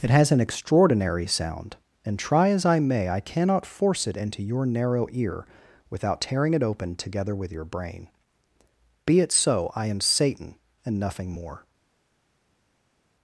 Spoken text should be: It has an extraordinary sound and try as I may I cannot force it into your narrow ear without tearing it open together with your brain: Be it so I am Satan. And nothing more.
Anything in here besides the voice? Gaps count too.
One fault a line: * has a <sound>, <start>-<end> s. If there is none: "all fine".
all fine